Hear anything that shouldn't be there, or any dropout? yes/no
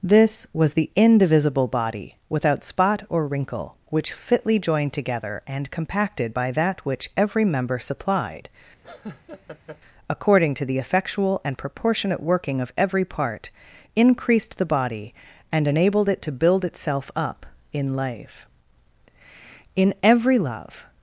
yes